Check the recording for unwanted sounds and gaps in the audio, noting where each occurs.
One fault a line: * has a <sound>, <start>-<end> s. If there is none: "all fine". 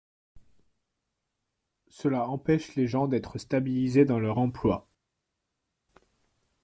all fine